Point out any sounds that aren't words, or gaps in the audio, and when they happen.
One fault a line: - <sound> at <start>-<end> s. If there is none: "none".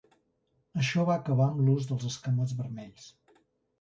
none